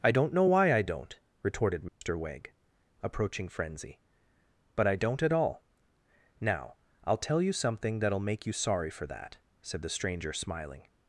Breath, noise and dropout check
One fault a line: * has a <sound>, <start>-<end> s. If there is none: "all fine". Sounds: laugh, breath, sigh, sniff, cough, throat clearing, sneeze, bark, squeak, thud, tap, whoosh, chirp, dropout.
* has a dropout, 1.9-2.0 s